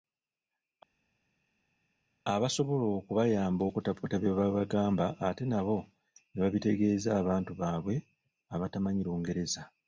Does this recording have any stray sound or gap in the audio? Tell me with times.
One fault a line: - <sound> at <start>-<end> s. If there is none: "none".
none